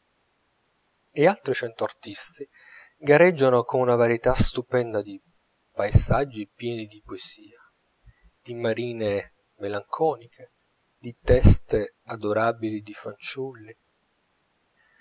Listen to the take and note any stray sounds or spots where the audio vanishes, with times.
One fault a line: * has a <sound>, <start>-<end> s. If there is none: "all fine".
all fine